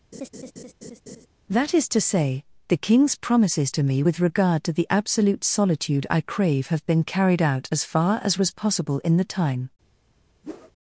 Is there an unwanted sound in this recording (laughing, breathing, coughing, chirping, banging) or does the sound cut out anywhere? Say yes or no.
yes